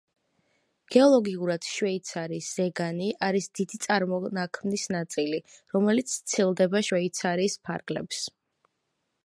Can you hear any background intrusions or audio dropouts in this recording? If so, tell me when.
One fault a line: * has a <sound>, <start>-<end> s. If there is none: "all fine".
all fine